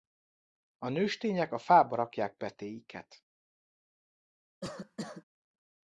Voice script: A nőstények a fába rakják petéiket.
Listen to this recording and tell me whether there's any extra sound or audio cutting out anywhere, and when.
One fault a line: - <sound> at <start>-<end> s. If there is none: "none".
- cough at 4.6-5.2 s